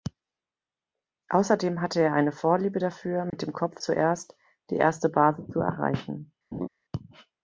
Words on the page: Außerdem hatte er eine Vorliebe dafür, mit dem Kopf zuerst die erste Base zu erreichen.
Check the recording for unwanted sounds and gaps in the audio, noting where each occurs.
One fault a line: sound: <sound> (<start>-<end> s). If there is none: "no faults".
sound: dropout (3.3-3.3 s)
sound: laugh (6.5-6.7 s)